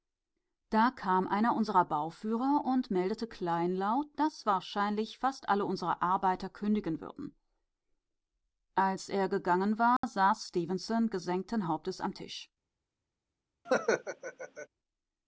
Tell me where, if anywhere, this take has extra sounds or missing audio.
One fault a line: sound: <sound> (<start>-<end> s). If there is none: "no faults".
sound: dropout (10.0-10.0 s)
sound: laugh (13.6-14.7 s)